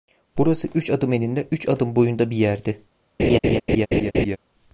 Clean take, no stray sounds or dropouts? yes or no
no